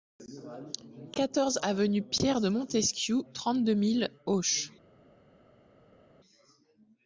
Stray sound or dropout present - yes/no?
no